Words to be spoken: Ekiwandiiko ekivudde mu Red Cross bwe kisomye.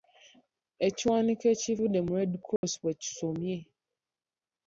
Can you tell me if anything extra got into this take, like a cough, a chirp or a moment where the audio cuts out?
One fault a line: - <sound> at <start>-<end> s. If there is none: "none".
- dropout at 2.6-2.6 s